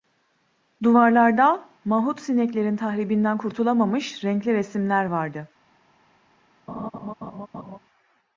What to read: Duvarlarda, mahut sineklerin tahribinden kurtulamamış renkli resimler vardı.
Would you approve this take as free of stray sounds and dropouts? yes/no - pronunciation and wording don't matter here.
no